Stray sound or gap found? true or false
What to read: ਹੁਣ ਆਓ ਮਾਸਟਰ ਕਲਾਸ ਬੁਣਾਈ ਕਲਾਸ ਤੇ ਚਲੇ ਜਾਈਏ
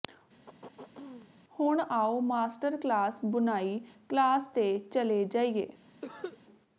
true